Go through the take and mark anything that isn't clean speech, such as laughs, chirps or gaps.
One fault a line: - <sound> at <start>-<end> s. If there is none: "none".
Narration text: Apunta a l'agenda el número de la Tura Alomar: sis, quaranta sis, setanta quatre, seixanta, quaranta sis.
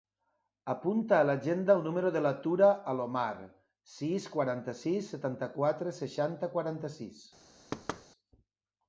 - thud at 7.7-8.1 s